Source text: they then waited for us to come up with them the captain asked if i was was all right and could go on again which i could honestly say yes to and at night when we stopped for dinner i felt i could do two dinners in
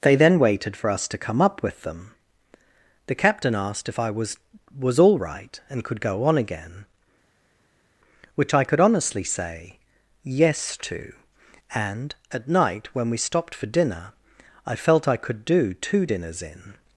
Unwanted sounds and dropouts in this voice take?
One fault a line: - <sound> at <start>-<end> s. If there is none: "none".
none